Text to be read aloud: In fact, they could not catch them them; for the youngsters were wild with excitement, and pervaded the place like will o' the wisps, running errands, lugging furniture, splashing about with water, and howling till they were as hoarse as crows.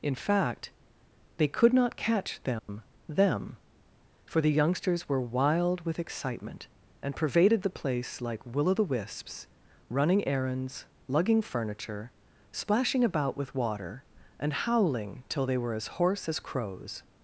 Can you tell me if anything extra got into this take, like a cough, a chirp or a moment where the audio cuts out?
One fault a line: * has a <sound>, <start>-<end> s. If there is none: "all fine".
* has a dropout, 2.6-2.7 s